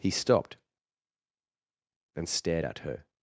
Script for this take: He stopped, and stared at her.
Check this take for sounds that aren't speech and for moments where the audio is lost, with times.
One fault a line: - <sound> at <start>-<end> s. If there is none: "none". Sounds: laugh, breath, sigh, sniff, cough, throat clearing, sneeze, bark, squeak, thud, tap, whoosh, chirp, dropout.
none